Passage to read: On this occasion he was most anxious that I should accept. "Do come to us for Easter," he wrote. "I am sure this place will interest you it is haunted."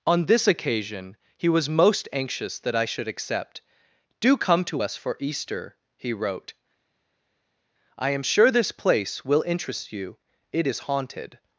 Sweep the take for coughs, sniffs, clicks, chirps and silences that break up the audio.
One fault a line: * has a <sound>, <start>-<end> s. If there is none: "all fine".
all fine